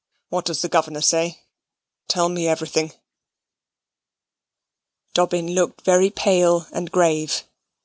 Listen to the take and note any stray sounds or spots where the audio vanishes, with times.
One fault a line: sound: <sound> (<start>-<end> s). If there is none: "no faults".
no faults